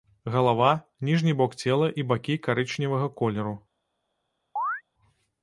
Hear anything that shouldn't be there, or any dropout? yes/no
yes